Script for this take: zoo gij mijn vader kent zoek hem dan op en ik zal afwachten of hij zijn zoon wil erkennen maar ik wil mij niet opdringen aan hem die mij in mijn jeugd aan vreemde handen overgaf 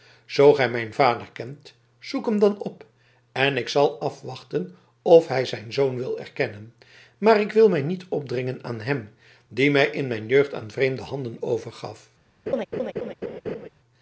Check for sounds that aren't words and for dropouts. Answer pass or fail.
fail